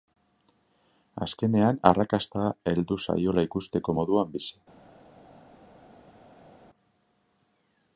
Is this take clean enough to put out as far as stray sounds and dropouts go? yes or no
yes